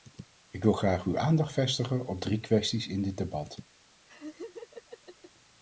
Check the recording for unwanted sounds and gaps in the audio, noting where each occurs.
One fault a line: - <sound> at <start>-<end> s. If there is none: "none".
- laugh at 4.1-5.3 s